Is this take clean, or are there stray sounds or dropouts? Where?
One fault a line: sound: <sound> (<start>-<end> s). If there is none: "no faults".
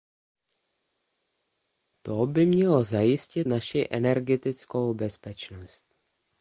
no faults